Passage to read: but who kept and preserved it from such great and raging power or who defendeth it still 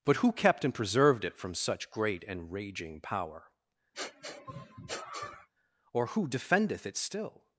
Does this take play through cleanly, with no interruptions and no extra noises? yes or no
no